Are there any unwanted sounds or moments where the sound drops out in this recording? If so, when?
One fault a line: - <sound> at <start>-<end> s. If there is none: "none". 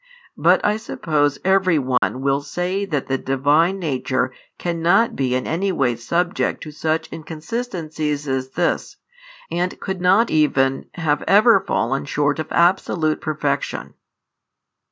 - dropout at 2.0-2.0 s